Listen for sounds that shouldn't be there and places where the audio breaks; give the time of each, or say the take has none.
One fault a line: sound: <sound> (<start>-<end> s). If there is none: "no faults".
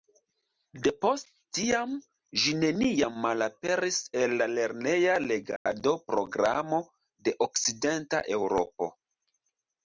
sound: dropout (5.6-5.7 s)